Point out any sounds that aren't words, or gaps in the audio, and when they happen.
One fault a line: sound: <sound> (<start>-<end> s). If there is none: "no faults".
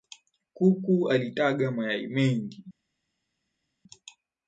no faults